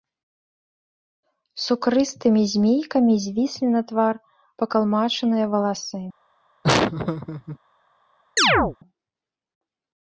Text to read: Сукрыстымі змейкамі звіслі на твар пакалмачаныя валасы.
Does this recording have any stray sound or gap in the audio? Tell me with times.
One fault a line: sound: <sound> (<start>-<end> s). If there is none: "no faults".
sound: laugh (6.6-7.6 s)
sound: chirp (8.4-8.8 s)